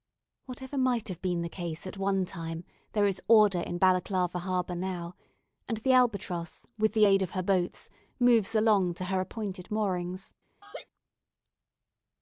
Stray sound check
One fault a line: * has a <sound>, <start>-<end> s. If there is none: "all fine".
* has a laugh, 10.6-10.9 s